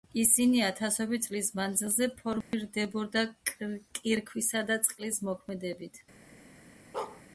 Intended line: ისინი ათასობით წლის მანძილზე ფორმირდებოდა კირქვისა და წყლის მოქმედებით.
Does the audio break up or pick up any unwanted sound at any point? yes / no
yes